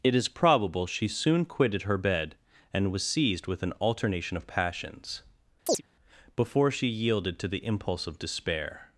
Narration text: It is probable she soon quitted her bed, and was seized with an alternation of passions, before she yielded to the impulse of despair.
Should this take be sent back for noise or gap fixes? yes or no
yes